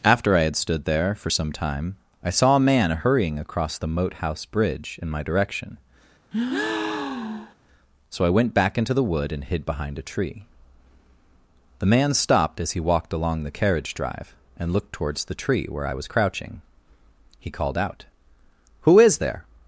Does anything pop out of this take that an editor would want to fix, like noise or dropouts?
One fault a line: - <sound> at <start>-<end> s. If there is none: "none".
- breath at 6.3-7.5 s